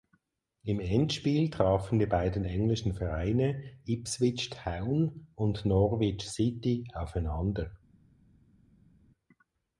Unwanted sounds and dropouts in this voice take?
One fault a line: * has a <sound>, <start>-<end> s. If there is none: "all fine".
all fine